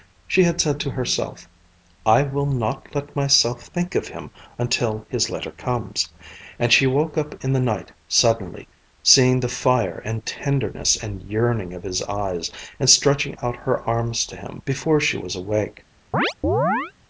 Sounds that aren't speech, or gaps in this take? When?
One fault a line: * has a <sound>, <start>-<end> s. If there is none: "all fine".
* has a chirp, 16.1-16.9 s